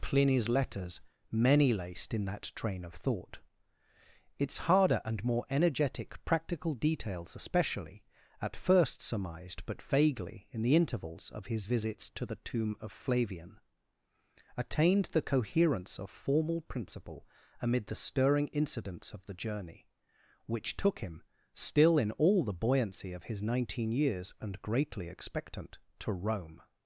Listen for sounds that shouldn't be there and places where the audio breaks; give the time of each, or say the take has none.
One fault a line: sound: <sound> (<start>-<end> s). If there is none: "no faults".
no faults